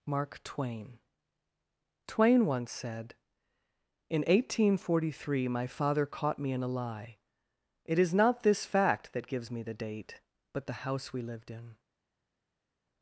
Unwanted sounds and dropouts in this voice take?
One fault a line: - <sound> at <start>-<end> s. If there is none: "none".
none